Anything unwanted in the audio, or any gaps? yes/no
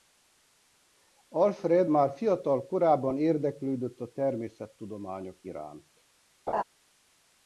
yes